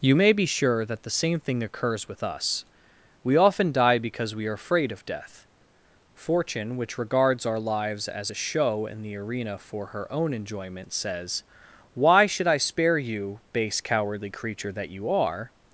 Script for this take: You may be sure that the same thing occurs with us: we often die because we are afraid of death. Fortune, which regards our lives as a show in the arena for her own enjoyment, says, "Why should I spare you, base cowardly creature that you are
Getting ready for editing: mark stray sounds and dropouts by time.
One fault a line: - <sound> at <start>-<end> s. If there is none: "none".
none